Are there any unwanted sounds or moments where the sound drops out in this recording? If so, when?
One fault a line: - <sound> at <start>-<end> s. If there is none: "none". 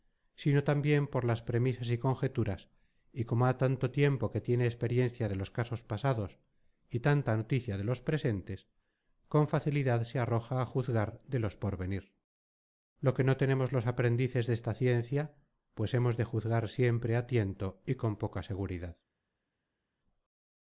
none